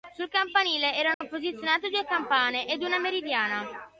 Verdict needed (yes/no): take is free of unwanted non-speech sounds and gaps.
no